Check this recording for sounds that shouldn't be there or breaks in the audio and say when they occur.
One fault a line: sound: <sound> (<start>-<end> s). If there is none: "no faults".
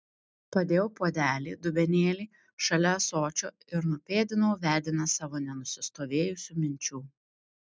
no faults